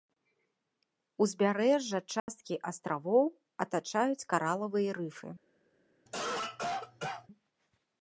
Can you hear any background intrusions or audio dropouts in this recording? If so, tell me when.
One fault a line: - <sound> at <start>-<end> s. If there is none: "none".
- dropout at 2.2-2.3 s
- cough at 6.1-7.3 s